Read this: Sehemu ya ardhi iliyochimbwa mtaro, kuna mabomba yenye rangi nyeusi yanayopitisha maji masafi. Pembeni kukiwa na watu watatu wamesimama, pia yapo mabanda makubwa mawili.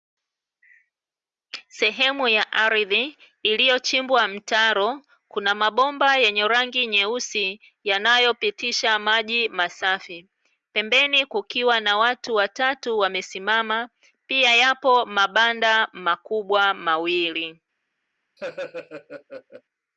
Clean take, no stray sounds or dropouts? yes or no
no